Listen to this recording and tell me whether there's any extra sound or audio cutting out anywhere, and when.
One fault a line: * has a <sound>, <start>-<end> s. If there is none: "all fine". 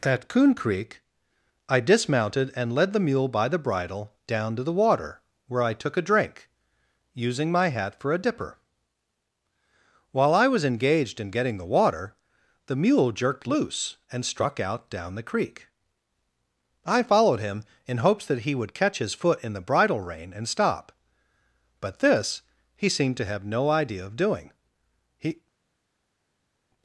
all fine